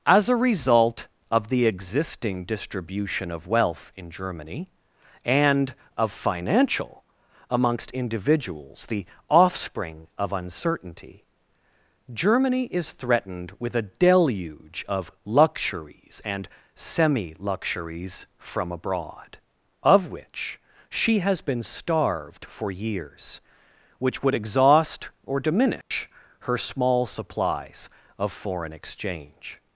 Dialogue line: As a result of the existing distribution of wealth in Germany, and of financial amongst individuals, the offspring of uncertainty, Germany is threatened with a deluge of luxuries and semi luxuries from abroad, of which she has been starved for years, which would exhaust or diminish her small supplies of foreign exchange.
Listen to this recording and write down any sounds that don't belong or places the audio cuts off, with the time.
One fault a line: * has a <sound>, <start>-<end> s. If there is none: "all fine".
* has a dropout, 25.8-25.9 s